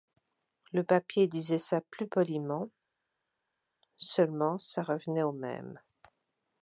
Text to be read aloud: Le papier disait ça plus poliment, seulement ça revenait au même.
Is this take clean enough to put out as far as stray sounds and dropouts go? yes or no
yes